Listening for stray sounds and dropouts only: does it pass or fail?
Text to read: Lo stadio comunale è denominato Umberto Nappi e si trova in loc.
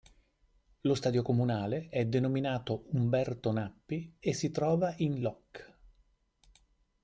pass